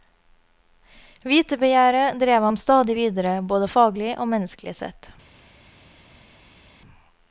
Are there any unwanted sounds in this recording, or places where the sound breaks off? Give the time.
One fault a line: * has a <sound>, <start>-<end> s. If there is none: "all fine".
all fine